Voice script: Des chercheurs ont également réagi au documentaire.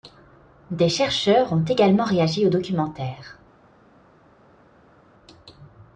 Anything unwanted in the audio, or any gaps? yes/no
no